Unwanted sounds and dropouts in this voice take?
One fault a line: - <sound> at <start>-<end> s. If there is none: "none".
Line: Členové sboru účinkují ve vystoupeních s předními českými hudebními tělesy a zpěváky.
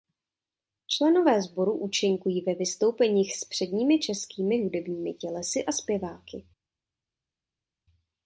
none